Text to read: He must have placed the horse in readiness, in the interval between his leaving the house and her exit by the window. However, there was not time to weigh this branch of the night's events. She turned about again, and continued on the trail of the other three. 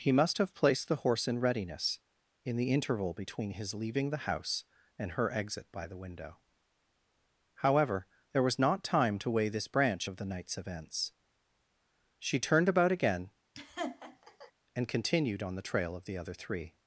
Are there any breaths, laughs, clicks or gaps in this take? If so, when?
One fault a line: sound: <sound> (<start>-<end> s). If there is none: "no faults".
sound: laugh (13.5-14.5 s)